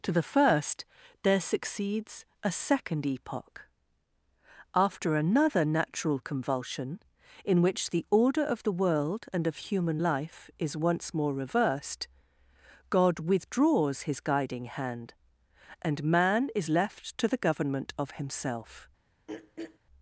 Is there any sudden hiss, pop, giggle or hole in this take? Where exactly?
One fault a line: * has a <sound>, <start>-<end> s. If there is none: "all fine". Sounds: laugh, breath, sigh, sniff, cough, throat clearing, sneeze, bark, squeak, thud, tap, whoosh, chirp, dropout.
* has a throat clearing, 19.3-19.8 s